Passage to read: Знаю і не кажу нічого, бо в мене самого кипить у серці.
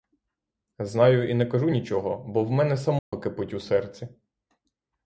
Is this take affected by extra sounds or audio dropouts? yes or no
yes